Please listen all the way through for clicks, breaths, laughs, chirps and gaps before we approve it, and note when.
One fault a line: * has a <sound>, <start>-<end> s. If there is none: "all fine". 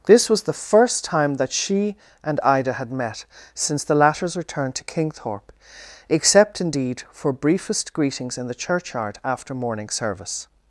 all fine